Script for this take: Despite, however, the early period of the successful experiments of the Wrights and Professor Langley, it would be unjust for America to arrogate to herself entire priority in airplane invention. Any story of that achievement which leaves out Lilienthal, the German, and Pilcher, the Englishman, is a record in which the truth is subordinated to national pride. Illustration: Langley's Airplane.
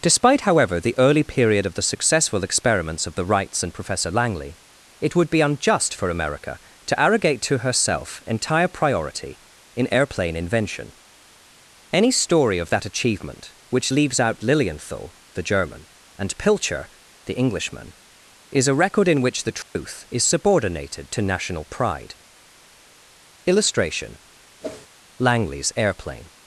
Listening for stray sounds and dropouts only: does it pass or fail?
fail